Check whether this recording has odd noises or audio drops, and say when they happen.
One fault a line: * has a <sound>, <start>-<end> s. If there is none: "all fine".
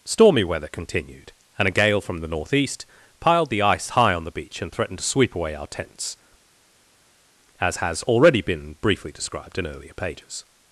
all fine